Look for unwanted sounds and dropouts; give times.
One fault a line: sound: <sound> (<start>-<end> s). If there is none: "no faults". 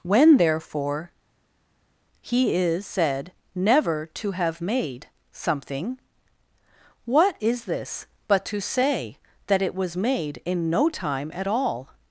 no faults